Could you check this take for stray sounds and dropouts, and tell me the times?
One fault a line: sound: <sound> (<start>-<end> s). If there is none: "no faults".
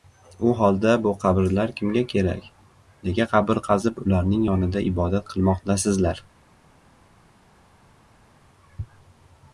no faults